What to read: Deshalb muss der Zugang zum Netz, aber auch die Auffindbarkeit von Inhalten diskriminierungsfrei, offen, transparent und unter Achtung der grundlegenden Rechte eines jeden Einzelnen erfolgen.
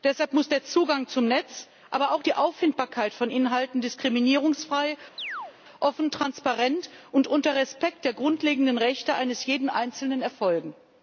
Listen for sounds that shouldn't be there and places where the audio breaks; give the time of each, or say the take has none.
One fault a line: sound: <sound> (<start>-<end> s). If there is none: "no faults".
sound: chirp (5.2-5.6 s)